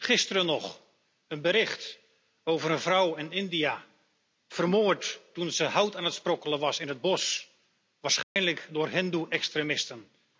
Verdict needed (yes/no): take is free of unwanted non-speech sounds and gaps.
no